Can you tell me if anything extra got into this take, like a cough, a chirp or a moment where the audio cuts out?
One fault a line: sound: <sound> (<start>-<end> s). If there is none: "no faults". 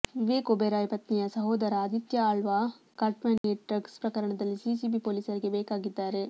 sound: dropout (3.4-3.4 s)